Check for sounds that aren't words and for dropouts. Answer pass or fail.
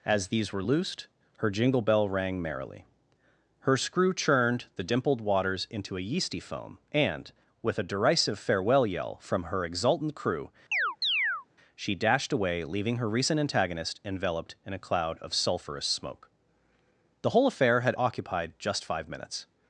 fail